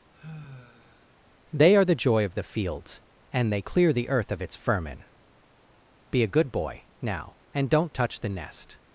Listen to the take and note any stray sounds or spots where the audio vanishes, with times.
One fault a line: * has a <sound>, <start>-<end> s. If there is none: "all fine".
* has a sigh, 0.1-1.1 s